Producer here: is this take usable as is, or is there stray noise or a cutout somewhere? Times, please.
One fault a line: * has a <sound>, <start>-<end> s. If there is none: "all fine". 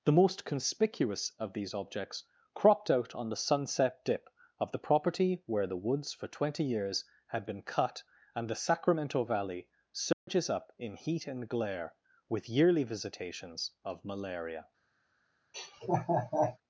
* has a dropout, 10.1-10.3 s
* has a laugh, 15.5-16.6 s